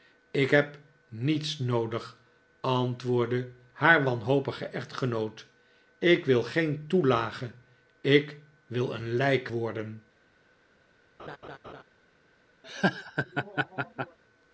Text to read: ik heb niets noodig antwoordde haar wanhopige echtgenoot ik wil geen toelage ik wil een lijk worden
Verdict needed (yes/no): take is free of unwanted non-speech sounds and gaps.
no